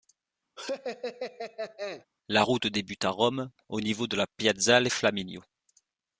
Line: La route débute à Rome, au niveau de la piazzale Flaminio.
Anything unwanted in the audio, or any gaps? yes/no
yes